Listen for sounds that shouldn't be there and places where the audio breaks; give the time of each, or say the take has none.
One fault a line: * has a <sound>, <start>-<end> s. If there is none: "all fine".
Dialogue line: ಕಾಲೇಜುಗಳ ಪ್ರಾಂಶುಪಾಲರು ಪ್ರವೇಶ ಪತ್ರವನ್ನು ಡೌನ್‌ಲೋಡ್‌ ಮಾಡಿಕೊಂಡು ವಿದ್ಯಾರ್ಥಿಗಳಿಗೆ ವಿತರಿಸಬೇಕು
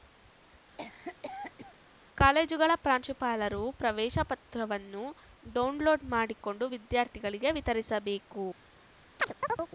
* has a cough, 0.8-1.8 s
* has a chirp, 9.2-9.7 s